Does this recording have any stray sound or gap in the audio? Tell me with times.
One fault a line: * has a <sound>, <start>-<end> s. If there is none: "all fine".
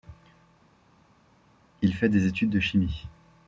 all fine